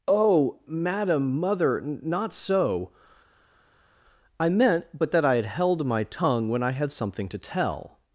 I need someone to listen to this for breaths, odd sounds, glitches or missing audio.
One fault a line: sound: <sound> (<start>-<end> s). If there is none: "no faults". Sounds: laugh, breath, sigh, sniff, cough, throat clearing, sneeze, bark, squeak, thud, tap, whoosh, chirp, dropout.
no faults